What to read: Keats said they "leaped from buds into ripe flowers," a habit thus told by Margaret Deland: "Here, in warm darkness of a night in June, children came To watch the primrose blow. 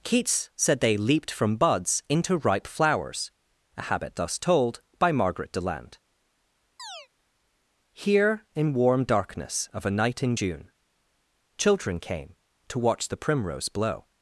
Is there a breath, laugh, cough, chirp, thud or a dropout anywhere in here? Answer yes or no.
yes